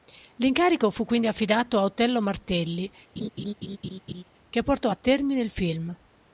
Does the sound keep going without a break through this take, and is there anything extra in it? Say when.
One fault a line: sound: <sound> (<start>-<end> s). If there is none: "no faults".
sound: laugh (3.2-4.2 s)